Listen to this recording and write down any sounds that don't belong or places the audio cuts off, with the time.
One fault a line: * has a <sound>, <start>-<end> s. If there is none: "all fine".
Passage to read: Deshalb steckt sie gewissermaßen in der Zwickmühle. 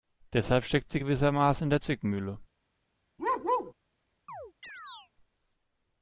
* has a bark, 3.2-3.7 s
* has a chirp, 4.3-5.1 s